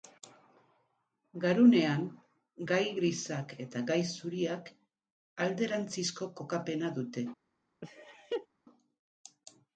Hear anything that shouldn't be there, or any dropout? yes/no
yes